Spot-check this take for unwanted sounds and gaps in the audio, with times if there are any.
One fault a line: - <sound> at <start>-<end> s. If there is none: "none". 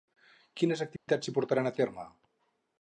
- dropout at 1.0-1.1 s